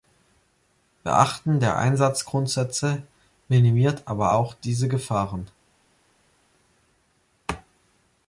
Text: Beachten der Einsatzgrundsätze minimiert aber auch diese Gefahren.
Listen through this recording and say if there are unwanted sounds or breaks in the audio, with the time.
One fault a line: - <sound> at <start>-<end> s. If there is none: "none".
none